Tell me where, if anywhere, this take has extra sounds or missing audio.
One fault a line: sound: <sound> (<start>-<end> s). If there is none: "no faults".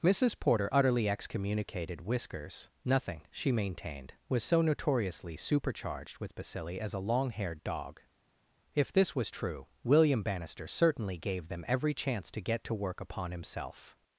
no faults